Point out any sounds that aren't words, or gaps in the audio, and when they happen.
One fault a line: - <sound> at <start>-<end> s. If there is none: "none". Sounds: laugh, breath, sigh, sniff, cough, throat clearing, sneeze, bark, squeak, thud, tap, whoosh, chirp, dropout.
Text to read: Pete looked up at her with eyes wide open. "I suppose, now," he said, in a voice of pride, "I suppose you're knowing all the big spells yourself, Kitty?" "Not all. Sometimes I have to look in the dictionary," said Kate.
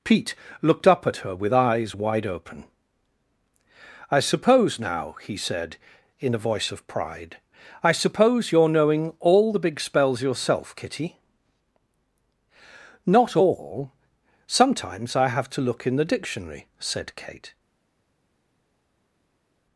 none